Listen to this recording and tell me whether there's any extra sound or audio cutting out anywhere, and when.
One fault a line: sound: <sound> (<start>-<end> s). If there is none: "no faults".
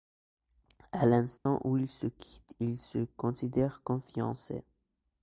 sound: dropout (1.4-1.5 s)